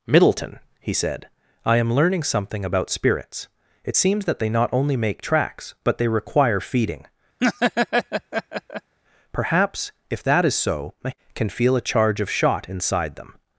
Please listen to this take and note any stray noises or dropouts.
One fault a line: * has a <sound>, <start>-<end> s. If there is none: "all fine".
* has a laugh, 7.4-8.9 s